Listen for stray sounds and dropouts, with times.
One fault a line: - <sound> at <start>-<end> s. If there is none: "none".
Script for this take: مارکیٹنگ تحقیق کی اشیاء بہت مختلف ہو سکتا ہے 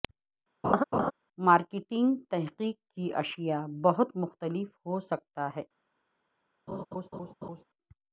- laugh at 0.6-1.1 s
- laugh at 6.7-7.6 s